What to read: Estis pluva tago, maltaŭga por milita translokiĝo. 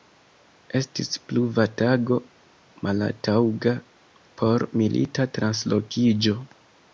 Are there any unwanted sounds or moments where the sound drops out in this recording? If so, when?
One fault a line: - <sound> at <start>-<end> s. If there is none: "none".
none